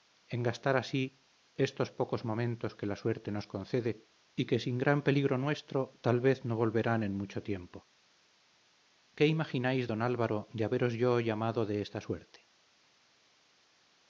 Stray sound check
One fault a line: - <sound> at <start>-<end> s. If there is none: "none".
none